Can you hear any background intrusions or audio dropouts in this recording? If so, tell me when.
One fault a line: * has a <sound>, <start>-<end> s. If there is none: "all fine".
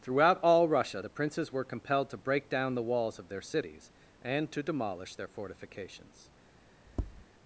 * has a tap, 6.9-7.3 s